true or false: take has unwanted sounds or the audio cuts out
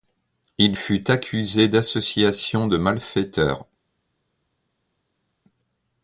false